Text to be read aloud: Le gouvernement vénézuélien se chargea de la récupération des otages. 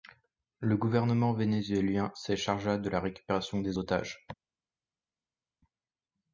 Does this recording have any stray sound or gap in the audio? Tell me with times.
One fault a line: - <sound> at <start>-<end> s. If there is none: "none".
none